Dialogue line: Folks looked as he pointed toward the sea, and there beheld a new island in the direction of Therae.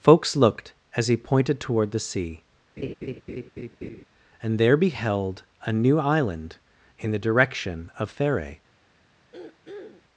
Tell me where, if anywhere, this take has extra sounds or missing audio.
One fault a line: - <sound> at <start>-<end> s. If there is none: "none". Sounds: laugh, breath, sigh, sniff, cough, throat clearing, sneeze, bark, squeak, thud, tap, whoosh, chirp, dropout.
- laugh at 2.8-4.0 s
- throat clearing at 9.3-10.0 s